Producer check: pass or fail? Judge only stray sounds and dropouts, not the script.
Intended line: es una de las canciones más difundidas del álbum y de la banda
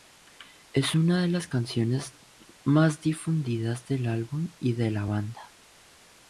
pass